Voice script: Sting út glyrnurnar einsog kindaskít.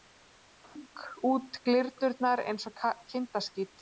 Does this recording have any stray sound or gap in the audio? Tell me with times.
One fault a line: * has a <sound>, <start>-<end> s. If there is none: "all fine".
* has a dropout, 0.6-0.8 s